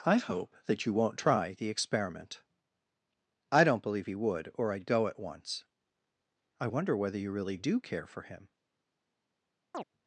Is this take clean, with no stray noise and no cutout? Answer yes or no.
no